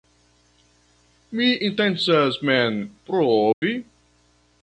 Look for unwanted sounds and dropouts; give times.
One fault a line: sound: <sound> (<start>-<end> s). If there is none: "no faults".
sound: dropout (3.5-3.6 s)